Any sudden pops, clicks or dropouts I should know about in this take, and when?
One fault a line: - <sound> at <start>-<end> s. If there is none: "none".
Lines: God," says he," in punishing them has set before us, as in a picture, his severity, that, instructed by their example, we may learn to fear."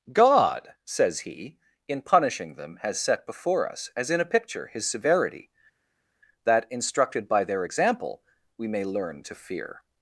none